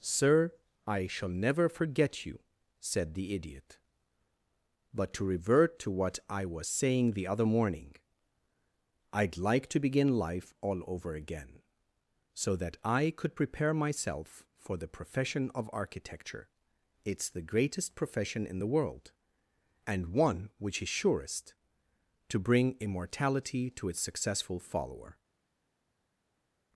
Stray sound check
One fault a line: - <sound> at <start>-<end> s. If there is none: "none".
none